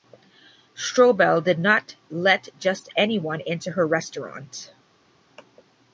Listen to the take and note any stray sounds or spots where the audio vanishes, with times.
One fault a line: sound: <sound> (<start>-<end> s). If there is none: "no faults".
no faults